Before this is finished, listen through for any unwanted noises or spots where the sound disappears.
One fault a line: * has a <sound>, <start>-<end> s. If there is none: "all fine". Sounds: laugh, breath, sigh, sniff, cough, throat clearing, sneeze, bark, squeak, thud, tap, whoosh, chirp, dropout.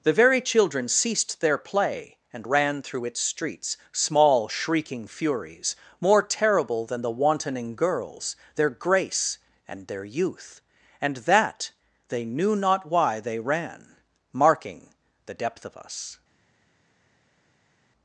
all fine